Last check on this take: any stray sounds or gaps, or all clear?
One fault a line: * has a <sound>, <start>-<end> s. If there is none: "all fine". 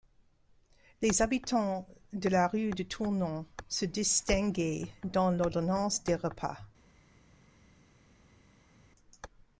all fine